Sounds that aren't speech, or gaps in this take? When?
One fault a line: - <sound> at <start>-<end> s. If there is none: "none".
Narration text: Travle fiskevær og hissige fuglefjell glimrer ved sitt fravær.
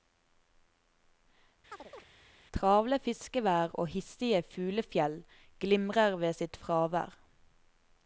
- chirp at 1.7-2.0 s